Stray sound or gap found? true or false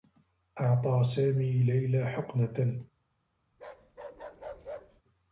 true